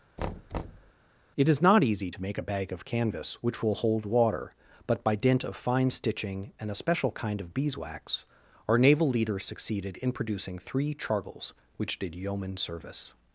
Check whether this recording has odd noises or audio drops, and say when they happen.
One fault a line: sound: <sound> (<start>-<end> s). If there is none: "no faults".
sound: thud (0.2-0.9 s)